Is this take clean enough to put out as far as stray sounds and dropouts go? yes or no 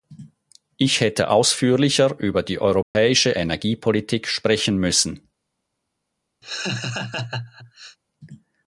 no